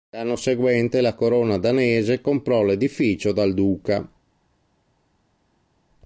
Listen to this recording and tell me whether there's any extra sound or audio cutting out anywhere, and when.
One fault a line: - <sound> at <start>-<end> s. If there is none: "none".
none